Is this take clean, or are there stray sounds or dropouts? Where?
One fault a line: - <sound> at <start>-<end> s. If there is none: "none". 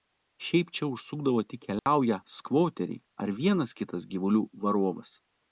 - dropout at 1.8-1.9 s